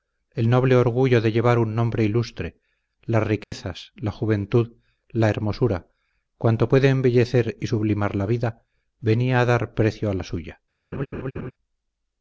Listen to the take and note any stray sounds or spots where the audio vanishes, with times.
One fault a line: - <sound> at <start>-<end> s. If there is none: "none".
- dropout at 3.4-3.5 s
- laugh at 10.9-11.5 s